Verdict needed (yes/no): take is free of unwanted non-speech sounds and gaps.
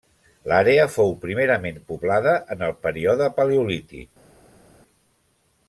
yes